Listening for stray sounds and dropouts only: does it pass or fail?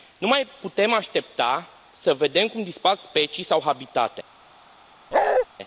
fail